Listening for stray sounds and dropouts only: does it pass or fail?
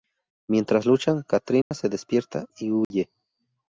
fail